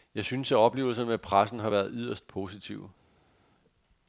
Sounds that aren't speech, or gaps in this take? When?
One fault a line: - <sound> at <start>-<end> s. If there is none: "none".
none